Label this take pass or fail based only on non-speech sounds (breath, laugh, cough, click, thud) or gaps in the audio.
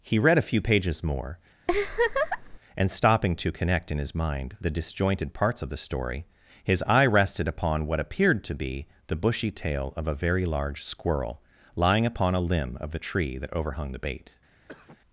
fail